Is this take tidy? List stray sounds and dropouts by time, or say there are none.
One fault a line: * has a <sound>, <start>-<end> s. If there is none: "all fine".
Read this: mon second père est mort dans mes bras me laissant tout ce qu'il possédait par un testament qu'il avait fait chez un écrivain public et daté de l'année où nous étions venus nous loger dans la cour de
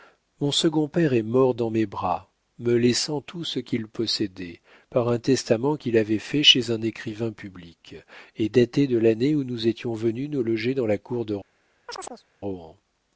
* has a chirp, 11.9-12.2 s